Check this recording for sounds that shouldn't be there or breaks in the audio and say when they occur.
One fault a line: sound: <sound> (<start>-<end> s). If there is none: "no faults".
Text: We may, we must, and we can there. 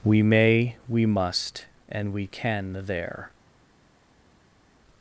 no faults